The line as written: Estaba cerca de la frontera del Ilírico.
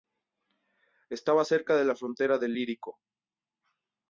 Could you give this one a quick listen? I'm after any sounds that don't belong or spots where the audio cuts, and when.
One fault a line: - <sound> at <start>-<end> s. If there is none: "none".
none